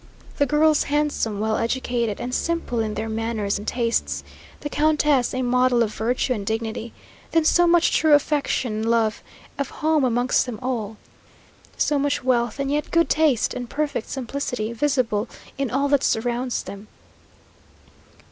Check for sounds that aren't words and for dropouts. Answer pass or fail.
pass